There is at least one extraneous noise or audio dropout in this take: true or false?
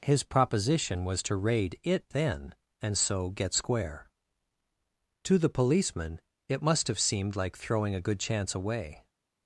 false